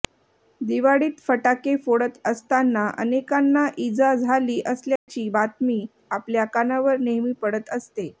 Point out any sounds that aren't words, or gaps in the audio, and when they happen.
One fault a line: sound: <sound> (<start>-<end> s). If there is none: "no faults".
sound: dropout (5.0-5.1 s)